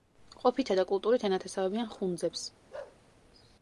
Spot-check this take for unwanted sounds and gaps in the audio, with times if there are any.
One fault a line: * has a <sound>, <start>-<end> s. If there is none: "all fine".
* has a bark, 2.7-3.0 s